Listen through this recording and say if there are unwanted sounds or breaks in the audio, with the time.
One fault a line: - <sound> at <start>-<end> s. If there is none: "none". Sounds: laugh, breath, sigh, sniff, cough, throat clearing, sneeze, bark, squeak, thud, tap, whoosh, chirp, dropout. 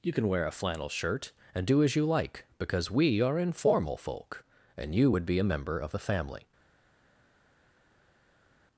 none